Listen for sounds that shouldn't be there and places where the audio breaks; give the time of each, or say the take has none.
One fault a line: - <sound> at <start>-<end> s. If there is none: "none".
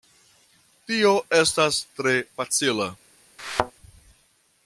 - thud at 3.4-3.7 s